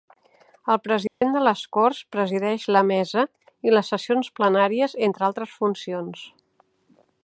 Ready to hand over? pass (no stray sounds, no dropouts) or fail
fail